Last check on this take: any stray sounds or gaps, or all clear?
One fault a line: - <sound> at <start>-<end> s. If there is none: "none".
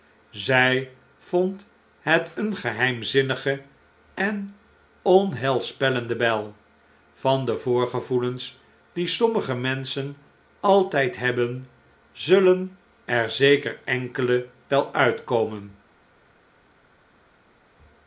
none